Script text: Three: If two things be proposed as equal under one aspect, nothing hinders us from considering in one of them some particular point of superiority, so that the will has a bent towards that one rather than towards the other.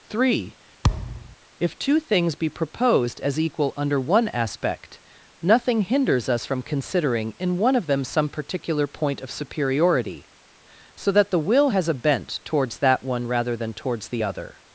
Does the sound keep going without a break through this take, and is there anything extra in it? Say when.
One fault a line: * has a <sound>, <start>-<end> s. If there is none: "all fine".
* has a thud, 0.8-1.4 s